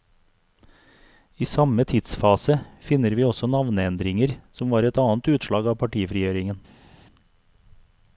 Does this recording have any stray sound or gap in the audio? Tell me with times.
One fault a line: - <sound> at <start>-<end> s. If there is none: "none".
none